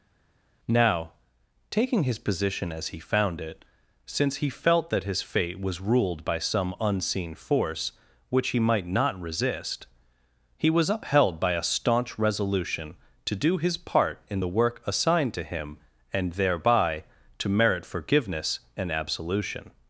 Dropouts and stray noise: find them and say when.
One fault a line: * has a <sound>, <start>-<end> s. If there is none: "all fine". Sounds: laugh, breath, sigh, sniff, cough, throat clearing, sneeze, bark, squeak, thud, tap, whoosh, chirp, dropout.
all fine